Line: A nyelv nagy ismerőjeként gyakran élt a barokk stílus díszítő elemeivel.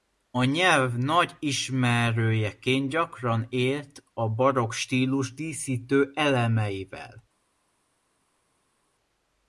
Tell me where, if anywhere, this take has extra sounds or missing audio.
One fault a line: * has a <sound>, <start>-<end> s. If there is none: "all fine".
all fine